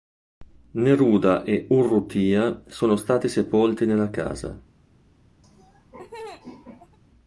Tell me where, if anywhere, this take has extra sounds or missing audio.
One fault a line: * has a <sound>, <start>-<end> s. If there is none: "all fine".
* has a laugh, 5.4-7.0 s